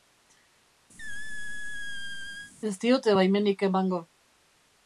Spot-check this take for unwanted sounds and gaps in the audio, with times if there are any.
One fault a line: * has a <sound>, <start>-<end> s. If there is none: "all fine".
* has a squeak, 1.0-2.5 s